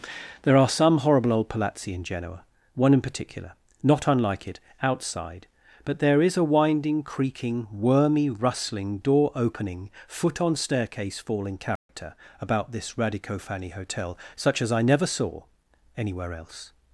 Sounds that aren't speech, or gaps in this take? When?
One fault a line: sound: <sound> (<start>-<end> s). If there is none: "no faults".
sound: dropout (11.8-11.9 s)